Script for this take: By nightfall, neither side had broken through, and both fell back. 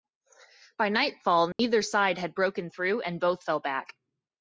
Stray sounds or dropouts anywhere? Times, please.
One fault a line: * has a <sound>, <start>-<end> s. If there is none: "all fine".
* has a dropout, 1.5-1.6 s